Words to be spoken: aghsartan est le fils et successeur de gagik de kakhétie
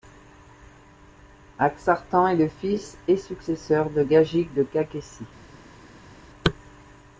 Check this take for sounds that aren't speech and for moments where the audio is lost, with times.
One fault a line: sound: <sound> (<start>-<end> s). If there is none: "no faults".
no faults